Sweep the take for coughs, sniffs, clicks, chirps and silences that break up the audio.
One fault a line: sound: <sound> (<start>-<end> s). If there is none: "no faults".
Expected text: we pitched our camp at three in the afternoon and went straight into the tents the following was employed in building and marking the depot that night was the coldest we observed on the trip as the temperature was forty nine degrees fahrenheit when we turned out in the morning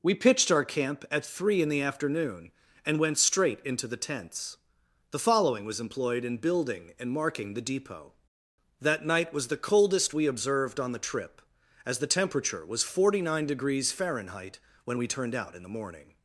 no faults